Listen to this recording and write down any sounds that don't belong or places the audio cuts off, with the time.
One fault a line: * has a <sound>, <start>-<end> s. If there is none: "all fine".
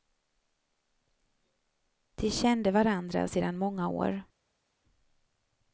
all fine